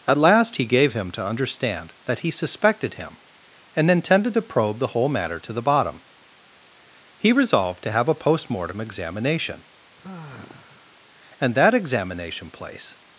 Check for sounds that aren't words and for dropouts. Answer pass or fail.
fail